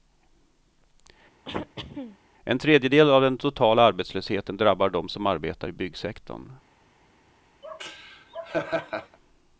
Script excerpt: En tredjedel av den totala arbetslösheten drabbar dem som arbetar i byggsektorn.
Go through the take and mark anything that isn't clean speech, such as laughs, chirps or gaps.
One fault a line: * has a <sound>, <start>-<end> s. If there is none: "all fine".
* has a throat clearing, 1.4-2.2 s
* has a laugh, 7.6-9.2 s